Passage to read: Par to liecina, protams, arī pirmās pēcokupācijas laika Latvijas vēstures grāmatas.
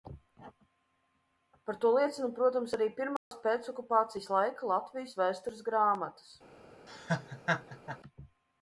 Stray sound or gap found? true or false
true